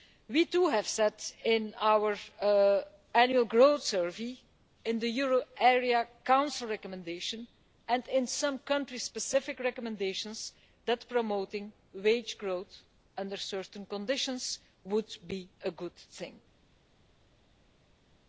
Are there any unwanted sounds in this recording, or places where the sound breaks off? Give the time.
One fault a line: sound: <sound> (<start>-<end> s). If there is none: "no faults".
no faults